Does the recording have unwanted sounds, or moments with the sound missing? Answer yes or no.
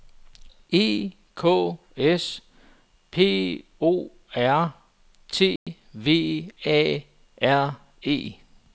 yes